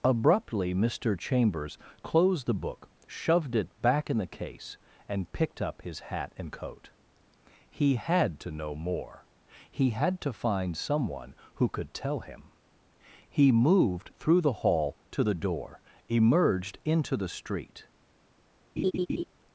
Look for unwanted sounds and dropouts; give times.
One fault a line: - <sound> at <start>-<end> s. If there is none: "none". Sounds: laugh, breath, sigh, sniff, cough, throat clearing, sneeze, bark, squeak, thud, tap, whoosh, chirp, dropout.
- laugh at 18.8-19.2 s